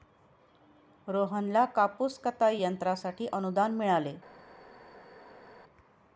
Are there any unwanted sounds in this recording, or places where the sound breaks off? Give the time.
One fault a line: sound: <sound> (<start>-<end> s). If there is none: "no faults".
no faults